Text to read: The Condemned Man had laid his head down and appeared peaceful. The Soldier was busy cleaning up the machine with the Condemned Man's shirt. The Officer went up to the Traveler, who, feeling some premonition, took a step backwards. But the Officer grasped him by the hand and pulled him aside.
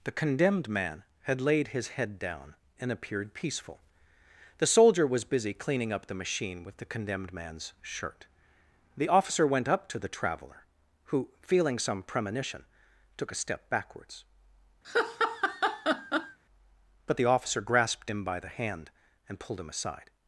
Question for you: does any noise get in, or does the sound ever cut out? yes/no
yes